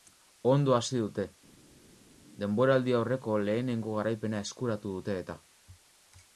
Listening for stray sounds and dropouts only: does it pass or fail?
pass